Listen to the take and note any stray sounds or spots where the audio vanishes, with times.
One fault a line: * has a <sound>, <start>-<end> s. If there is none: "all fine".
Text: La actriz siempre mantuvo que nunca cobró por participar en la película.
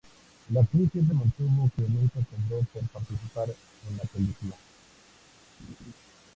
* has a laugh, 5.6-5.9 s